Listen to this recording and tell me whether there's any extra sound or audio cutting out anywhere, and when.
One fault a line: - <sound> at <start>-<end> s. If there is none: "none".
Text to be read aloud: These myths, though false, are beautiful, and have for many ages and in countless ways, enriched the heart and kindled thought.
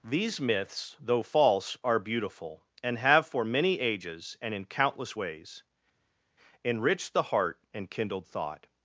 none